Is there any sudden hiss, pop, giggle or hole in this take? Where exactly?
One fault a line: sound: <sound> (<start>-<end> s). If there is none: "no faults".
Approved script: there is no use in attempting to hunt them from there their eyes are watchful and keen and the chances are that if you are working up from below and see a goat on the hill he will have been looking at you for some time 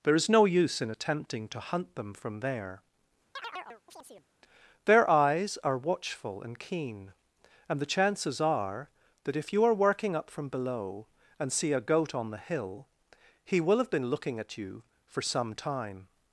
sound: chirp (3.4-4.3 s)